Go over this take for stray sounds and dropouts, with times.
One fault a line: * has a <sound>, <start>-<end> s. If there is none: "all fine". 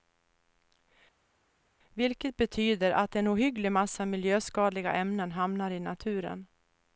all fine